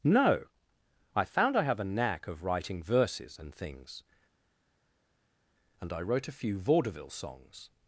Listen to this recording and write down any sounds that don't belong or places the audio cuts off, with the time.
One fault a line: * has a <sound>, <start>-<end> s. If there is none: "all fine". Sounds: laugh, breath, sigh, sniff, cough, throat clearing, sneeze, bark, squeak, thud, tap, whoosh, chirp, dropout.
all fine